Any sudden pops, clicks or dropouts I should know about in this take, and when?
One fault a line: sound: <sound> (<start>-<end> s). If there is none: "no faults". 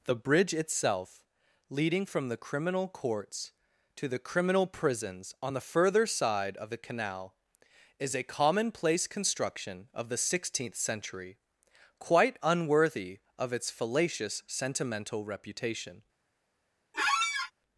sound: squeak (16.9-17.5 s)